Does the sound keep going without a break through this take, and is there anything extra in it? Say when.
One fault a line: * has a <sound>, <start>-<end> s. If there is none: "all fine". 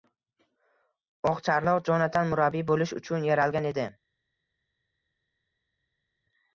all fine